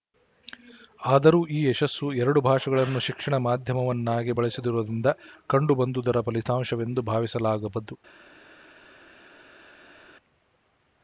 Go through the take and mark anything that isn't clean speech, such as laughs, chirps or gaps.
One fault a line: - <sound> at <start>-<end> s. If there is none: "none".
none